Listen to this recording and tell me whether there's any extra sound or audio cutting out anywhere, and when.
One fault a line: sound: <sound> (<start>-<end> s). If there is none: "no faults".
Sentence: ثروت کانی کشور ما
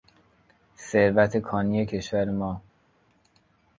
no faults